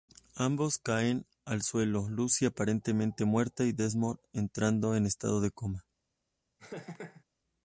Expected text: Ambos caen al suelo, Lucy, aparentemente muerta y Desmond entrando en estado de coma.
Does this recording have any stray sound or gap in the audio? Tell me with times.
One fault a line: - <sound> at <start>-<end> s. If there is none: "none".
- laugh at 6.6-7.2 s